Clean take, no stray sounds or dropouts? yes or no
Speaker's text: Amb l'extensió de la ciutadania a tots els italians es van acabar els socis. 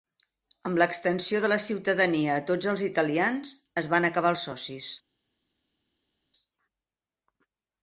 yes